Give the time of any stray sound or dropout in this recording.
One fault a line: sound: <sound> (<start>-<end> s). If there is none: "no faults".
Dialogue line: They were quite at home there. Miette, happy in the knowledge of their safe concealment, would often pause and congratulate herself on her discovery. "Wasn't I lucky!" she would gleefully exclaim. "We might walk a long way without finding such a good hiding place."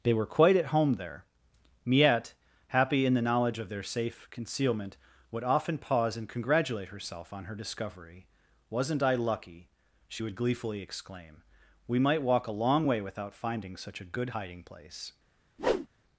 sound: whoosh (15.6-15.9 s)